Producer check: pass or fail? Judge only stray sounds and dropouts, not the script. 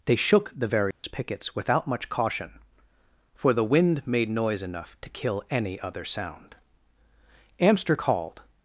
fail